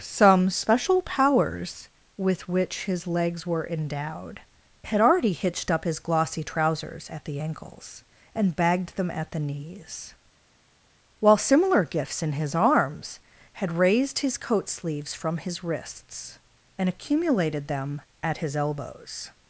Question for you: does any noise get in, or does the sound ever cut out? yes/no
no